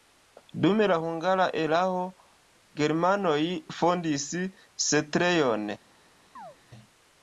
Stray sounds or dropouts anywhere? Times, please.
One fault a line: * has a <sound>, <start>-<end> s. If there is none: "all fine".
* has a chirp, 6.4-6.6 s